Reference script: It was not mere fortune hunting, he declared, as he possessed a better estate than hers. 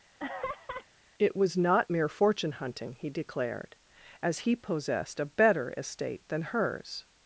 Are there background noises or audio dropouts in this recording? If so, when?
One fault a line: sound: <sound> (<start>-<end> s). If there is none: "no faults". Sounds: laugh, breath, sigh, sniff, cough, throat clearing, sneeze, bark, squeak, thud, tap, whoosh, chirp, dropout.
sound: laugh (0.2-0.9 s)